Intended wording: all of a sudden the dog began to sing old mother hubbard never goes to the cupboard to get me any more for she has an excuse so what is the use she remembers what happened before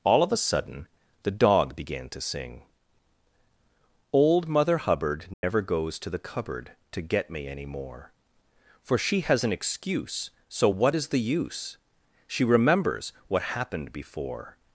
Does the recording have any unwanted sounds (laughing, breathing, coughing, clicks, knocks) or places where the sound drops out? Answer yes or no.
yes